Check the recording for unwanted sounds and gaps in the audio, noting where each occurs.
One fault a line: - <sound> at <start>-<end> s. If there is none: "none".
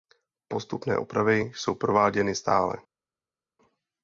none